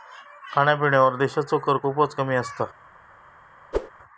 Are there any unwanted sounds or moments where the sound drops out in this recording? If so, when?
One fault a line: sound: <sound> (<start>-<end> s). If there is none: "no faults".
sound: whoosh (3.7-3.9 s)